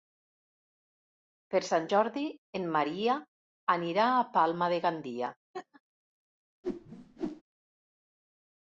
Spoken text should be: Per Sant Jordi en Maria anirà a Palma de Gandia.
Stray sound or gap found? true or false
true